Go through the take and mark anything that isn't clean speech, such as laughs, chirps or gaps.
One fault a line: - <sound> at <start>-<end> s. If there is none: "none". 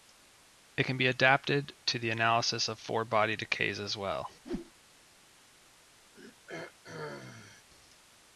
- whoosh at 4.4-4.7 s
- throat clearing at 6.1-7.7 s